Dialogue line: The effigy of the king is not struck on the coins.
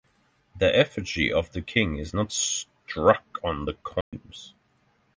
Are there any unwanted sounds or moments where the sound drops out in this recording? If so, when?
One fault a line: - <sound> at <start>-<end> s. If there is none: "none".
- dropout at 4.0-4.1 s